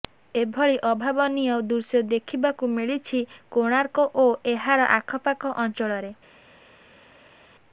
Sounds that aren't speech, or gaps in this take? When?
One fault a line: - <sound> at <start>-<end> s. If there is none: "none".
none